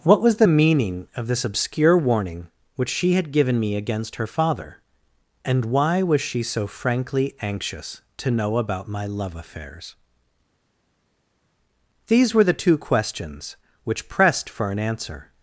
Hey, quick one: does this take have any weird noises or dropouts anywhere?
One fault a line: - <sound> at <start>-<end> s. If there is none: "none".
none